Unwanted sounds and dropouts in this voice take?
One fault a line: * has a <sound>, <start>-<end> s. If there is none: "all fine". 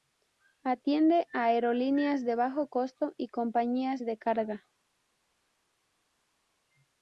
all fine